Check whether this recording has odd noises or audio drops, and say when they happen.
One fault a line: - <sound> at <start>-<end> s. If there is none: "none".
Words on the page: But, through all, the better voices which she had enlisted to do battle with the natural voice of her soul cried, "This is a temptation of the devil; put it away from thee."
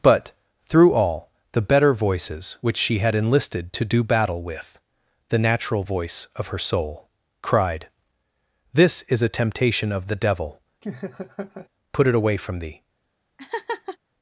- laugh at 10.8-11.7 s
- laugh at 13.4-14.0 s